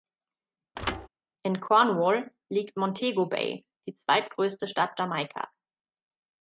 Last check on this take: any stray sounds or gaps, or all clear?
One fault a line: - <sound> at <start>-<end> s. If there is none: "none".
- thud at 0.8-1.1 s